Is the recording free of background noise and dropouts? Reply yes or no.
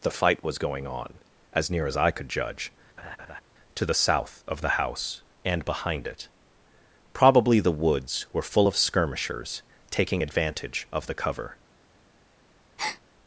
no